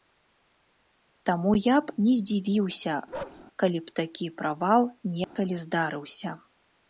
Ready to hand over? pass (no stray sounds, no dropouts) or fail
fail